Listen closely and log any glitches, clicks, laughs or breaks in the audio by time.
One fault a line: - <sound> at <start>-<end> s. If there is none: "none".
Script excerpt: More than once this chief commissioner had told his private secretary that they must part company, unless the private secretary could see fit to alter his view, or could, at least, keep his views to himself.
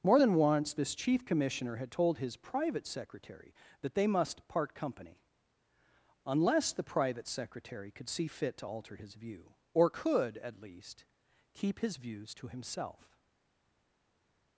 none